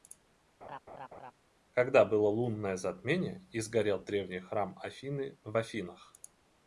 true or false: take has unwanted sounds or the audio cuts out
true